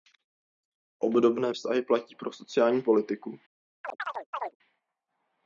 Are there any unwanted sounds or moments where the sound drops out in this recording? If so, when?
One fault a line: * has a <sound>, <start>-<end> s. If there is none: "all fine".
* has a chirp, 3.8-4.6 s